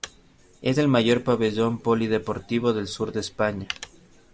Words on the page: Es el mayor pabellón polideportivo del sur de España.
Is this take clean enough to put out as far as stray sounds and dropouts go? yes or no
yes